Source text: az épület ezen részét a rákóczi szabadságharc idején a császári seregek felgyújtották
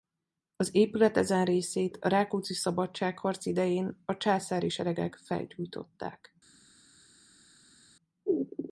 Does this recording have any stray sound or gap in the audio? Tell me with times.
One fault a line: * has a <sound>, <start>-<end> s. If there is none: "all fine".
all fine